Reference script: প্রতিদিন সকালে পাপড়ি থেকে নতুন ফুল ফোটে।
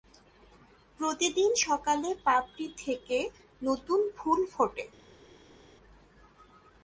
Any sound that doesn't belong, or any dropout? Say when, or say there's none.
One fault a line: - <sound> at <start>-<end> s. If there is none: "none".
none